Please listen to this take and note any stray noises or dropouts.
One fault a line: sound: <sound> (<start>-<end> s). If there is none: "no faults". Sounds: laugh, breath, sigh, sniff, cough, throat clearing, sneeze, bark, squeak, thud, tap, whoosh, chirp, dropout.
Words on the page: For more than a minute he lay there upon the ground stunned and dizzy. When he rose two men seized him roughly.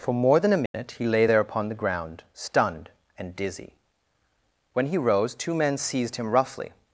sound: dropout (0.7-0.7 s)